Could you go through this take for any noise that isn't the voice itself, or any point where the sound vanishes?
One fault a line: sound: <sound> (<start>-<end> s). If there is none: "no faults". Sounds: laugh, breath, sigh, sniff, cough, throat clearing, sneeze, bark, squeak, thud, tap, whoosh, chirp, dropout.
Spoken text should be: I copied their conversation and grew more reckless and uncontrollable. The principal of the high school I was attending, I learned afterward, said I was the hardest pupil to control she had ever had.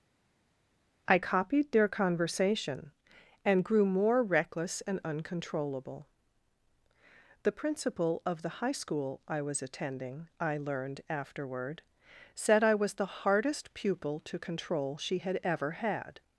no faults